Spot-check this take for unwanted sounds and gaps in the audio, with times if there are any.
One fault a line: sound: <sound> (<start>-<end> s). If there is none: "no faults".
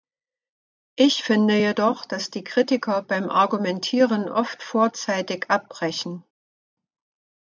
no faults